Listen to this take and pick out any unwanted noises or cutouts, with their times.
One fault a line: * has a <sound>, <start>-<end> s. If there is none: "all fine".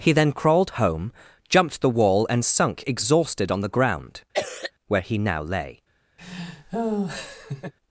* has a cough, 4.3-4.7 s
* has a laugh, 6.2-7.7 s